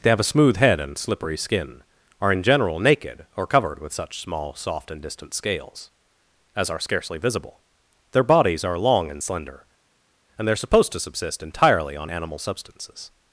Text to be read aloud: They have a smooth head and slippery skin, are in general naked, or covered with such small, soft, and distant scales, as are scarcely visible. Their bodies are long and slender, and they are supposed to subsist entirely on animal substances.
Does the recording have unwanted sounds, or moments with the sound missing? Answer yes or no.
no